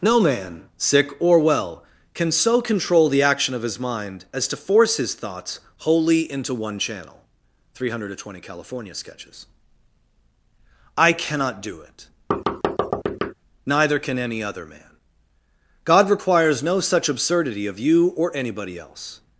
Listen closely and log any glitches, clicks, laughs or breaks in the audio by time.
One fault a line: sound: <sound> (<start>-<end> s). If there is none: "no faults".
sound: thud (12.3-13.3 s)